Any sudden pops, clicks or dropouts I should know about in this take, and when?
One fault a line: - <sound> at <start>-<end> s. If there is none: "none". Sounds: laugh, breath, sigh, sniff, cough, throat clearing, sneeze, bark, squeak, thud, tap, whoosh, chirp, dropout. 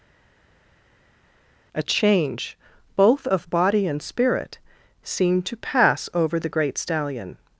none